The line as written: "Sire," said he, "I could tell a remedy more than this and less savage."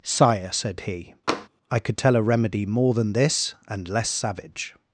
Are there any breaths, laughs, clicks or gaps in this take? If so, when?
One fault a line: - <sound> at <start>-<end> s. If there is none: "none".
- tap at 1.3-1.5 s